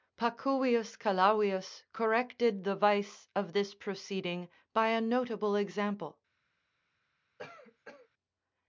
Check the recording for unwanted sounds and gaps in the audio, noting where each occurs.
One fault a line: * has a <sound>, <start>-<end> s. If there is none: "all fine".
* has a cough, 7.4-8.1 s